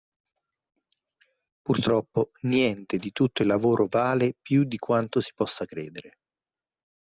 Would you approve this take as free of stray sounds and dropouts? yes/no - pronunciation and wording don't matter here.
yes